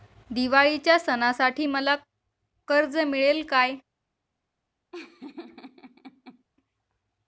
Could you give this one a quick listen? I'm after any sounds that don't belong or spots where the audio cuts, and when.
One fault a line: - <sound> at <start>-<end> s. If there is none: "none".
- laugh at 4.9-6.4 s